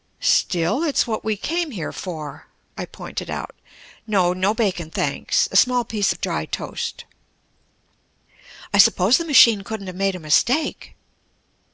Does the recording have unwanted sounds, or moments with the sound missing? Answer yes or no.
no